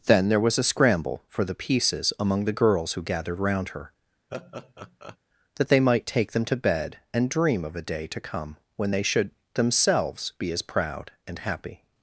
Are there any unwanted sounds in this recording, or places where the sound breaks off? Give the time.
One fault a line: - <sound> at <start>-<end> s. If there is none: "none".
- laugh at 4.3-5.2 s